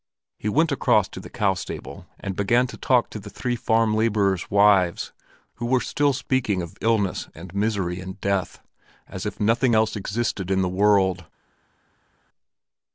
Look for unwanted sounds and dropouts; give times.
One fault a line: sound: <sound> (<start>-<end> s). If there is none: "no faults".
no faults